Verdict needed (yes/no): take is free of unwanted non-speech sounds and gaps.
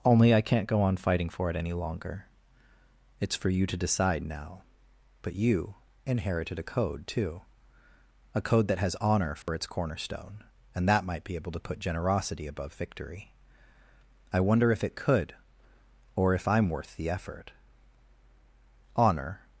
no